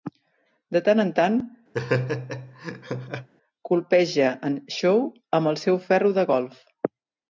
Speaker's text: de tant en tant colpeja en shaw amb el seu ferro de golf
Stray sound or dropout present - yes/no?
yes